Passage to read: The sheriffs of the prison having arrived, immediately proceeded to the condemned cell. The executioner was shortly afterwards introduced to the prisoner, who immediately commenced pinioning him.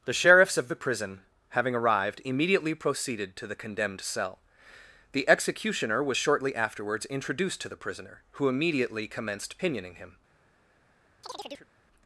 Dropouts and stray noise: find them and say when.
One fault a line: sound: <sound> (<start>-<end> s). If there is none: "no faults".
sound: chirp (11.2-11.7 s)